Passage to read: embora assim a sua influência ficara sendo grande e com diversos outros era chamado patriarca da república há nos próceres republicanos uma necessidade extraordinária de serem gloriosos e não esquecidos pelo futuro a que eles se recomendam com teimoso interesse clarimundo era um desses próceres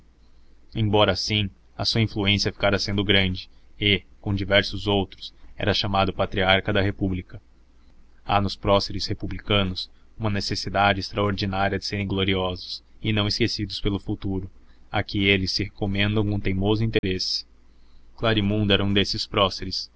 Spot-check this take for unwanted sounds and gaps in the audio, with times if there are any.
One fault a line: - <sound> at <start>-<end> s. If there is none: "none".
- dropout at 17.0-17.0 s